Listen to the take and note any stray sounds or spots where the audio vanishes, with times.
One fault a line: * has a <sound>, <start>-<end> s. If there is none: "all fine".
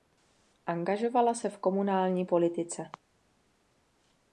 all fine